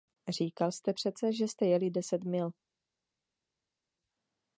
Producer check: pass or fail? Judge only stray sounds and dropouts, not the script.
pass